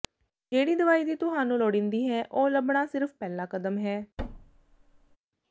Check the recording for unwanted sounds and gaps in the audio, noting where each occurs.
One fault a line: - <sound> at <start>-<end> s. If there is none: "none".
- thud at 4.2-5.2 s